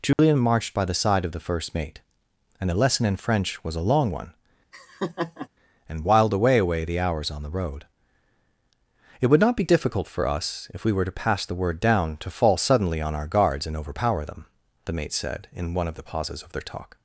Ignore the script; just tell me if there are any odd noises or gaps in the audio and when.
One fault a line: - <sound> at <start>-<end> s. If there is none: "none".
- dropout at 0.1-0.2 s
- laugh at 4.7-5.5 s